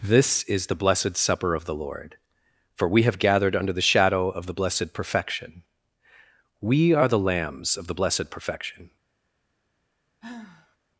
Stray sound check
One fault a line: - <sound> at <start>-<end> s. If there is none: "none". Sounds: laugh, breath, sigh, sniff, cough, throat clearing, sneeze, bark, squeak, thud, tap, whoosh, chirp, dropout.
- sigh at 10.2-10.8 s